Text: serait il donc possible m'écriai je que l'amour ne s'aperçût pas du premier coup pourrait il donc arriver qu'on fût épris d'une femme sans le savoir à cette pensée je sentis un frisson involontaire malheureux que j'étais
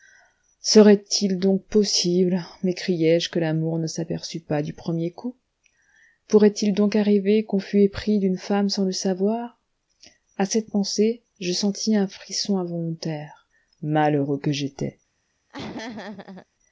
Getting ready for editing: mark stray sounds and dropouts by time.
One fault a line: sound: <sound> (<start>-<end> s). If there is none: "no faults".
sound: laugh (15.5-16.5 s)